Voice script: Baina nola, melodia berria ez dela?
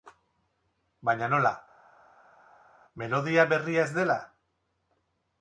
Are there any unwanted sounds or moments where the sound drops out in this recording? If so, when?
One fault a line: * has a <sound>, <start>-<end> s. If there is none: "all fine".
all fine